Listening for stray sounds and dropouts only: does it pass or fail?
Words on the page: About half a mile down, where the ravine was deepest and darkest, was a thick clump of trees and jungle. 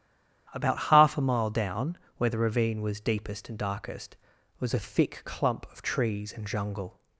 pass